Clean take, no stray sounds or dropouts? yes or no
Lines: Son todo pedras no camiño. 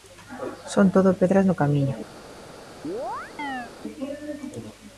no